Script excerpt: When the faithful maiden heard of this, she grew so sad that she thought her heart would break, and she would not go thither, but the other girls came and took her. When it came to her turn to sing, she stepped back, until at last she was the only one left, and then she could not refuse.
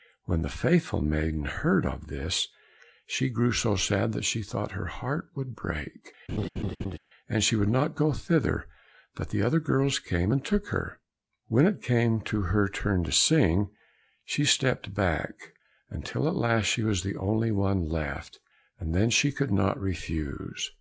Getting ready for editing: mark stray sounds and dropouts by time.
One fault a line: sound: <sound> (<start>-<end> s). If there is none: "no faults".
sound: laugh (6.3-7.0 s)